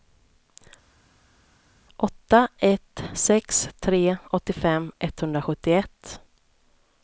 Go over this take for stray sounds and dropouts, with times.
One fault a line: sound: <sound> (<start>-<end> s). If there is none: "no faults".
no faults